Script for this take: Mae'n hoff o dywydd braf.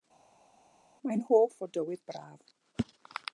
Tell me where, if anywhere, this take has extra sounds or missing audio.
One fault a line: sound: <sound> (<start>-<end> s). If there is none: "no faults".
no faults